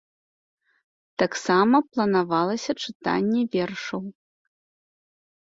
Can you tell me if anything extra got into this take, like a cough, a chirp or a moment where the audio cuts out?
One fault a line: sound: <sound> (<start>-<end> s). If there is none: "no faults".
no faults